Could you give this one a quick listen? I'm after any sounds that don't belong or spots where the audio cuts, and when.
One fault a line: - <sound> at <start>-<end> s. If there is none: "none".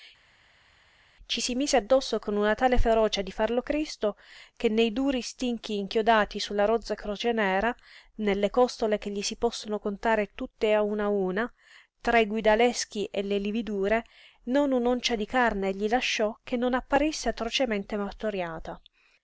none